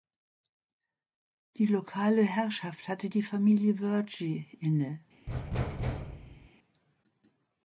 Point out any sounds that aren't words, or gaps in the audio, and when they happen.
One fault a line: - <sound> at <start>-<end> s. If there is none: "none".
- thud at 5.3-6.5 s